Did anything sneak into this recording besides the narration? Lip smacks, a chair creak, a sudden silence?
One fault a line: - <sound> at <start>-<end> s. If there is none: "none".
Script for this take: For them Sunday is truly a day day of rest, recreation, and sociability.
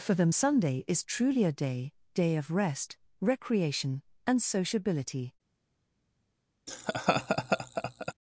- laugh at 6.7-8.1 s